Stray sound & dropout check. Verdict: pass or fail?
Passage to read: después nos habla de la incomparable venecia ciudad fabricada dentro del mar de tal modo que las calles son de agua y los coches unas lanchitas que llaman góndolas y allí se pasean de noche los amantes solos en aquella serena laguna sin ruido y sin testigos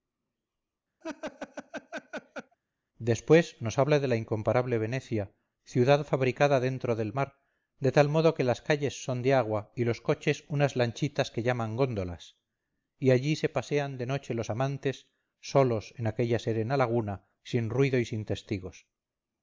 fail